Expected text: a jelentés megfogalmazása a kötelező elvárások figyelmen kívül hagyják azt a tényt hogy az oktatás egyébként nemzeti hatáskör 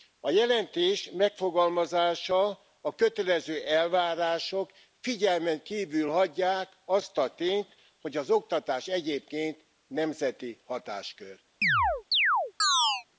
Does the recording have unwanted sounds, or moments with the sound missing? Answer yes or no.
yes